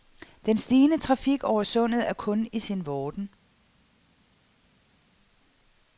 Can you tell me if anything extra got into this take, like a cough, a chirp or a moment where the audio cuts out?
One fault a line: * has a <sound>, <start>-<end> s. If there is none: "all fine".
all fine